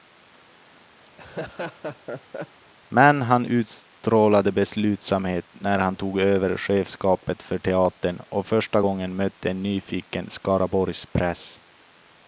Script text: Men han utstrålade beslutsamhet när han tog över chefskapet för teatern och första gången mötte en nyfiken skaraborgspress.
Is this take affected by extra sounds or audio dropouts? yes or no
yes